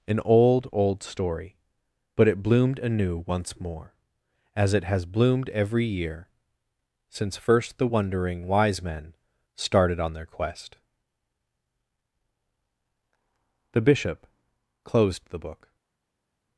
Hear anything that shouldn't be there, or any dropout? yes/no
no